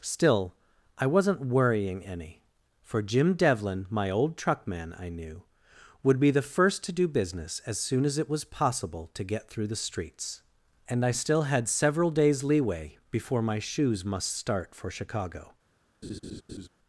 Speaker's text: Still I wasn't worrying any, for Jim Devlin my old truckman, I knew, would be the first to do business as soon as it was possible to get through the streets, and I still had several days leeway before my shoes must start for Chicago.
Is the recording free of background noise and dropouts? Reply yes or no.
no